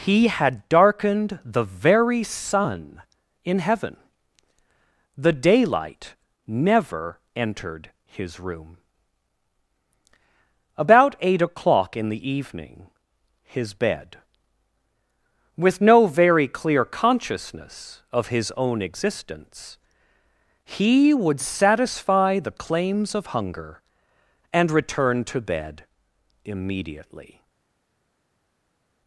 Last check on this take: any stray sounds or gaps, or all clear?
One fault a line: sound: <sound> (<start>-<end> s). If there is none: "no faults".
no faults